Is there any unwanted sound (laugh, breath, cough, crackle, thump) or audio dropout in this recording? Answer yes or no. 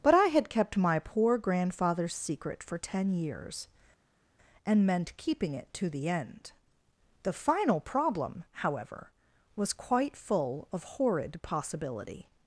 no